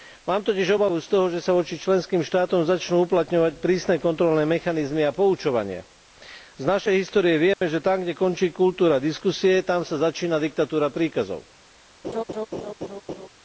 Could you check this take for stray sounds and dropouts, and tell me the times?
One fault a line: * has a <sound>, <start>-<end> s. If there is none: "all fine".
* has a dropout, 7.5-7.6 s
* has a laugh, 12.0-13.3 s